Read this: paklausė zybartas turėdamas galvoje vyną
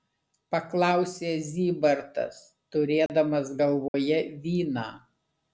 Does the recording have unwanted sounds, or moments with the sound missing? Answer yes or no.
yes